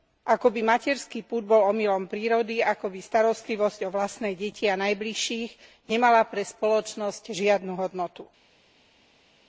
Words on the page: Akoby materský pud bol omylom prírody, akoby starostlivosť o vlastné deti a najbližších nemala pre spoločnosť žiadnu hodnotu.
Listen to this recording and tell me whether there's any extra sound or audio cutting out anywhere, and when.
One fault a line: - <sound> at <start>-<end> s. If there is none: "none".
none